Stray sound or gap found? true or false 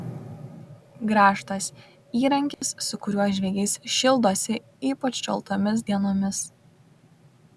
true